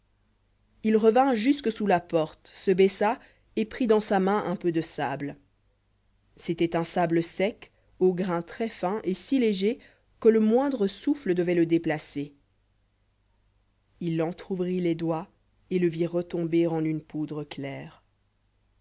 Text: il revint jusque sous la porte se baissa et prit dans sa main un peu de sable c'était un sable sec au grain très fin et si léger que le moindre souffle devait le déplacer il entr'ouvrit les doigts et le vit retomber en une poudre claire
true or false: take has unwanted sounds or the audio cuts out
false